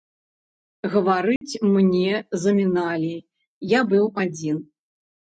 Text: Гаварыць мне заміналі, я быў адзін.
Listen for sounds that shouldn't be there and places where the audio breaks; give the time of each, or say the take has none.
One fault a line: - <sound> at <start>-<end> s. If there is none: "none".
- dropout at 1.4-1.4 s